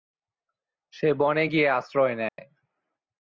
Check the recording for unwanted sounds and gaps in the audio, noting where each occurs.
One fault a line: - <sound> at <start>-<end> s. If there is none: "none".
- dropout at 2.3-2.4 s